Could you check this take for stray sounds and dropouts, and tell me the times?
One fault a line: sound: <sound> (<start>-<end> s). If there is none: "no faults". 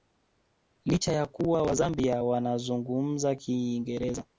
no faults